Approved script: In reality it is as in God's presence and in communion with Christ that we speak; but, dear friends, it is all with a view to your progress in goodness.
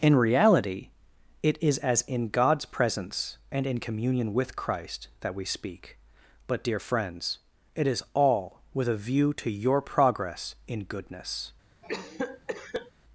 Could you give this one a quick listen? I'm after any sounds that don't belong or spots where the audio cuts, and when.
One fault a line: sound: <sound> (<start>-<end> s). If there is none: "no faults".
sound: cough (11.8-12.9 s)